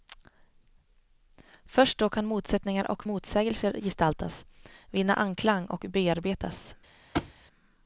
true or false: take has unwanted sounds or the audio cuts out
true